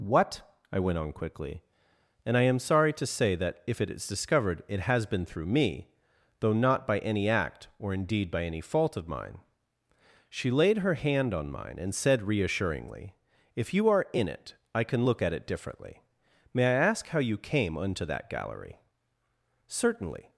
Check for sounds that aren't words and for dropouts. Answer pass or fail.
pass